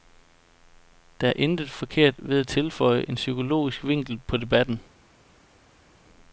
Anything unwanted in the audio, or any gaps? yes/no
no